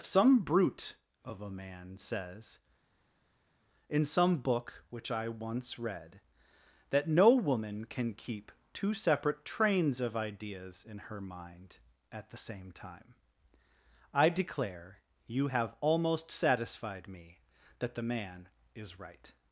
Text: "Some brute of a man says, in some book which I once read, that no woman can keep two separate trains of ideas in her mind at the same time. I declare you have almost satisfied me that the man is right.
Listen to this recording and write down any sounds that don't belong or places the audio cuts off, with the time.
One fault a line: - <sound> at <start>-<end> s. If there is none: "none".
none